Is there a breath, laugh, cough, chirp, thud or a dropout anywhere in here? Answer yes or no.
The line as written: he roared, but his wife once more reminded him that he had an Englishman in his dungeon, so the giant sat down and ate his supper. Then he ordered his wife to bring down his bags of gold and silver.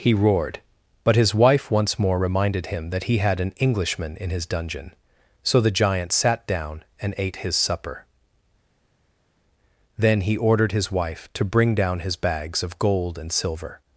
no